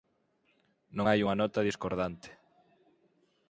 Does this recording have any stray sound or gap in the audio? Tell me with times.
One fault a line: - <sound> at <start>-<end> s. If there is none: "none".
none